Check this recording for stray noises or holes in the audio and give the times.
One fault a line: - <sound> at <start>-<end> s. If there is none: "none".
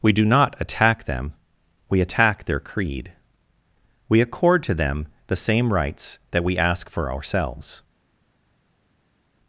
none